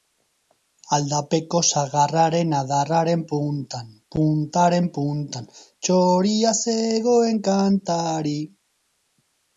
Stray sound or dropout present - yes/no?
no